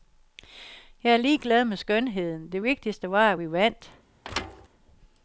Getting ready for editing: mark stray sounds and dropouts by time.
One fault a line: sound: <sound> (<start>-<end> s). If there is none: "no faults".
sound: thud (4.2-4.7 s)